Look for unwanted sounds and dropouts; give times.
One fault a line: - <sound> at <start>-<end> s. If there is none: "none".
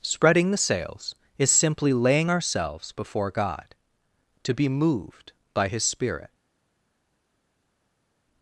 none